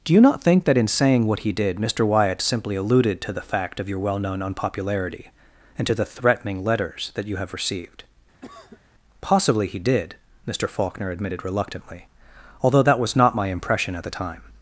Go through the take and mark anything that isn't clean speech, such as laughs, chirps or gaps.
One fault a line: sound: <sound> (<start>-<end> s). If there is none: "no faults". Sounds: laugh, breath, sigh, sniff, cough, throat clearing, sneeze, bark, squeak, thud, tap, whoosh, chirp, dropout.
sound: cough (8.4-8.8 s)